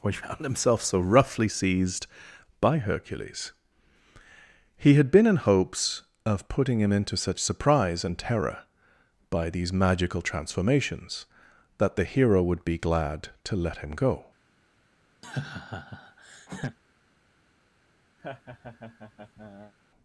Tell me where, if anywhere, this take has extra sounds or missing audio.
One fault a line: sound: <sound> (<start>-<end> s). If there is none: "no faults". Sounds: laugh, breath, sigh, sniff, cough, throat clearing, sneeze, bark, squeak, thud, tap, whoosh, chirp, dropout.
sound: laugh (15.2-16.8 s)
sound: laugh (18.2-19.7 s)